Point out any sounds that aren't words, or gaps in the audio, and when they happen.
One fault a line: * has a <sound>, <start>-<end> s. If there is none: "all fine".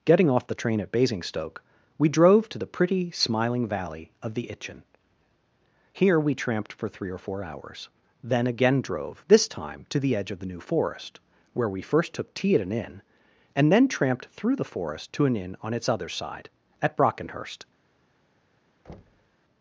* has a thud, 18.9-19.4 s